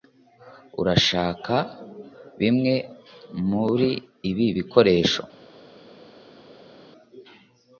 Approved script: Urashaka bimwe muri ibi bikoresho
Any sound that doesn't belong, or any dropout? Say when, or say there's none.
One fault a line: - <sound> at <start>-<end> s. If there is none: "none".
none